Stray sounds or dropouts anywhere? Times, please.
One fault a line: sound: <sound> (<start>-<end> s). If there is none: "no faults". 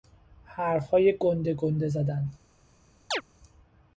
sound: chirp (3.1-3.2 s)